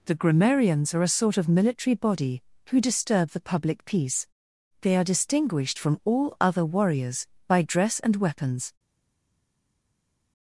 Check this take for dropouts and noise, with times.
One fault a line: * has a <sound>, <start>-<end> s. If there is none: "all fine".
all fine